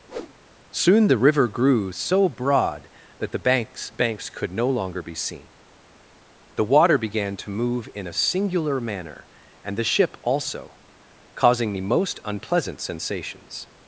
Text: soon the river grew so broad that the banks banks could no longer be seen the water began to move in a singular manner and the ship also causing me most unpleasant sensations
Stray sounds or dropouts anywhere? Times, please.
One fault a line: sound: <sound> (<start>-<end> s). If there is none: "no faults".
sound: whoosh (0.1-0.3 s)